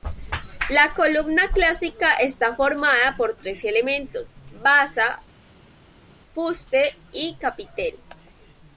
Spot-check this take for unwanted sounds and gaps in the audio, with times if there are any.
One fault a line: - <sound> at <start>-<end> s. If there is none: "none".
none